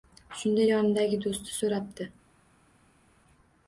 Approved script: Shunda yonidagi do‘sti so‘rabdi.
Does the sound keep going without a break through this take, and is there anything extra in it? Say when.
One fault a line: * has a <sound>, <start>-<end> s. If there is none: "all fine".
all fine